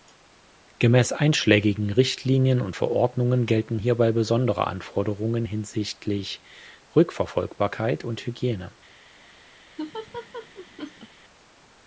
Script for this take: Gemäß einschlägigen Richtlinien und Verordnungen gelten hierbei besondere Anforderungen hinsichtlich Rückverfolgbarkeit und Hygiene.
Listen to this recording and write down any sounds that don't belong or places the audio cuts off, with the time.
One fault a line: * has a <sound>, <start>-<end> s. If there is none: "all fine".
* has a laugh, 9.8-11.1 s